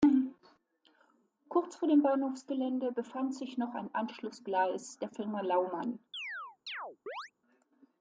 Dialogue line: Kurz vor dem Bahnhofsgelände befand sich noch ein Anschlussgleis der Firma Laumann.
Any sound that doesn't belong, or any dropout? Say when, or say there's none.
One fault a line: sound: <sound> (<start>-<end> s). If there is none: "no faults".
sound: chirp (6.1-7.3 s)